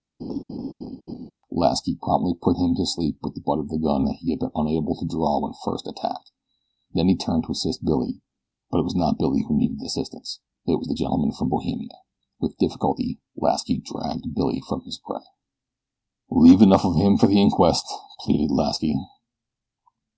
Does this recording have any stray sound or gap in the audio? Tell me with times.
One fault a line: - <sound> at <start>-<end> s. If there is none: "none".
- laugh at 0.2-1.3 s